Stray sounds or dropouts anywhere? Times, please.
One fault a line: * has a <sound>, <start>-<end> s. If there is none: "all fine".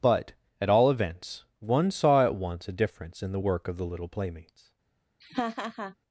* has a laugh, 5.2-6.0 s